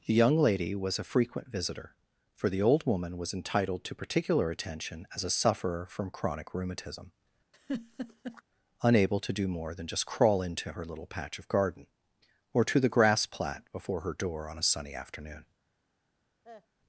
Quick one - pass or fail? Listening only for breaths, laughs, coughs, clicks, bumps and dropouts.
fail